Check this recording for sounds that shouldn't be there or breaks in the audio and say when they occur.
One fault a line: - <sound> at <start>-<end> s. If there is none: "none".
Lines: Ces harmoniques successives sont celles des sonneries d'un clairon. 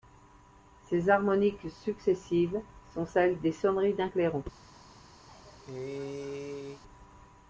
- cough at 5.3-6.8 s